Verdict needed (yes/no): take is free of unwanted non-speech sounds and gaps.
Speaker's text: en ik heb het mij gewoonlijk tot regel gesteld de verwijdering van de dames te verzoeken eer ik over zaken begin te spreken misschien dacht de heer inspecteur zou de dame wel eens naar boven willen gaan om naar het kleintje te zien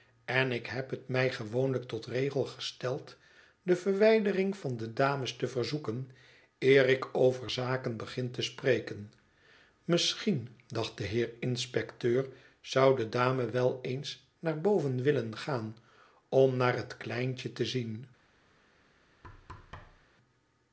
no